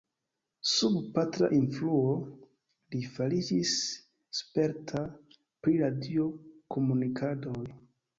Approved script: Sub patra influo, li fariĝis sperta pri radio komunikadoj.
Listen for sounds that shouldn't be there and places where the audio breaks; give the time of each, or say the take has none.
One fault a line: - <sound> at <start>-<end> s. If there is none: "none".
none